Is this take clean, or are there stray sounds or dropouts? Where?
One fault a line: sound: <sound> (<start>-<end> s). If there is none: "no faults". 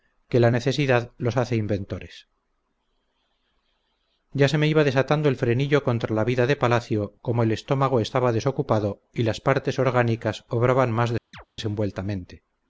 sound: chirp (11.3-11.5 s)